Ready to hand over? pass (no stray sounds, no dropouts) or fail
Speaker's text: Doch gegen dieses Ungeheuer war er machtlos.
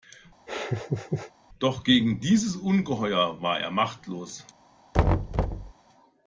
fail